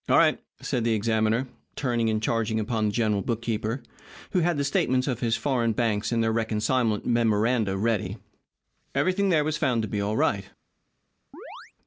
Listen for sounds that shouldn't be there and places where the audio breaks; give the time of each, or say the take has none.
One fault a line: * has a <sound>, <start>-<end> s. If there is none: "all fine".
* has a chirp, 11.3-11.7 s